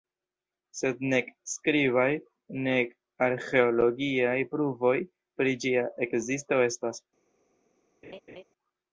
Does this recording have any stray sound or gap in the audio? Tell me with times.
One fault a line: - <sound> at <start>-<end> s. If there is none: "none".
- laugh at 8.0-8.4 s